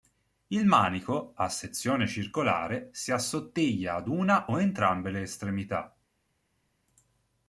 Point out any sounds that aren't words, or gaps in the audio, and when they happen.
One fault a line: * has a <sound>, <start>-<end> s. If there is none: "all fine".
all fine